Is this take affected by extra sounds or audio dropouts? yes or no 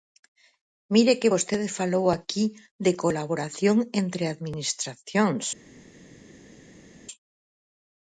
no